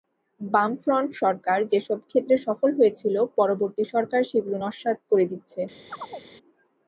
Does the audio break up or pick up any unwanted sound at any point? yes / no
yes